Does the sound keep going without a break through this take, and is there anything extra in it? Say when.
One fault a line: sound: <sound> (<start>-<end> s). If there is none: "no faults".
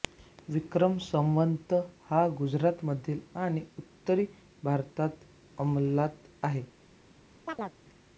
sound: chirp (7.5-7.8 s)